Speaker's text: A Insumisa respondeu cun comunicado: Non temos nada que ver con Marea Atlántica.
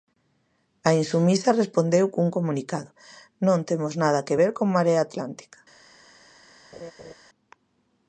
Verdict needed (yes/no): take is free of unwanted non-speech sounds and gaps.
no